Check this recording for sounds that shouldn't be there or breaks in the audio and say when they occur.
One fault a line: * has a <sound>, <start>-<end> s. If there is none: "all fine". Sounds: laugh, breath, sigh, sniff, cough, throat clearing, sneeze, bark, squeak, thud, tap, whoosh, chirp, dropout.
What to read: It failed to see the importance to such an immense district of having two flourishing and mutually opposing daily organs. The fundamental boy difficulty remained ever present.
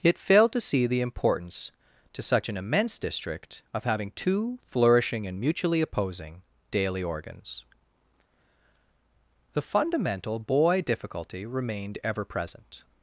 all fine